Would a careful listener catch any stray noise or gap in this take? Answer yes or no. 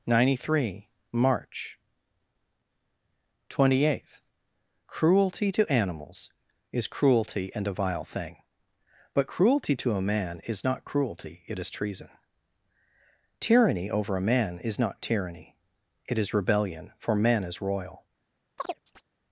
yes